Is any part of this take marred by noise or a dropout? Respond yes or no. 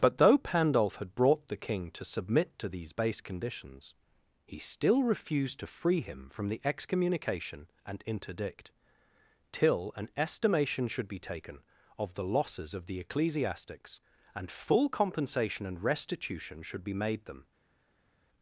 no